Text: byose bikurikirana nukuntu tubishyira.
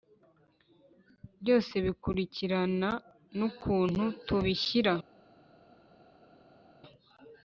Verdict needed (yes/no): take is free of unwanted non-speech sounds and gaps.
yes